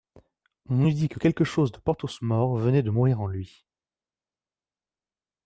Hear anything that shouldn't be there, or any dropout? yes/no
no